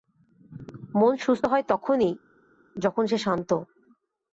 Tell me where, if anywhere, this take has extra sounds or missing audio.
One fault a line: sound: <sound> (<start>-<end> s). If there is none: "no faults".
no faults